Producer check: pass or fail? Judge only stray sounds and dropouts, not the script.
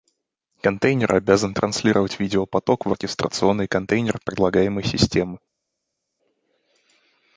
pass